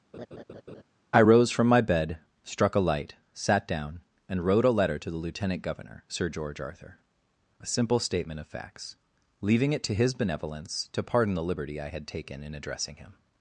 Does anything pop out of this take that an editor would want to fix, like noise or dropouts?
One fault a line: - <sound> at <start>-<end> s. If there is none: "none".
- laugh at 0.1-0.8 s